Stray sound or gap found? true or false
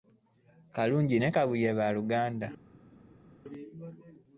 false